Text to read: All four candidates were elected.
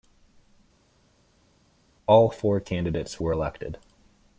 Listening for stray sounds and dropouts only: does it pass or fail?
pass